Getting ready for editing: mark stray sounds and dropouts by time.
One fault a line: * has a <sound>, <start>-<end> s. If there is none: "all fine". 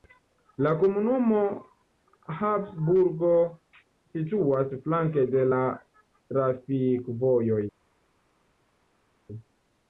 all fine